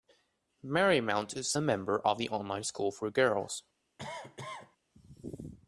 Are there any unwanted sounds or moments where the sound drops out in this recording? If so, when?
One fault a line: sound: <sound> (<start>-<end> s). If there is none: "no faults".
sound: cough (4.0-4.8 s)